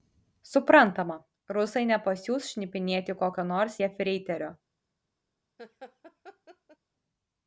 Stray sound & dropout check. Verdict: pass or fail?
fail